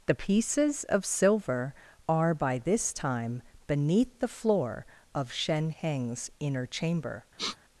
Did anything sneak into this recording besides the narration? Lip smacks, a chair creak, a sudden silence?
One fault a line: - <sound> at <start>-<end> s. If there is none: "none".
- sniff at 7.4-7.6 s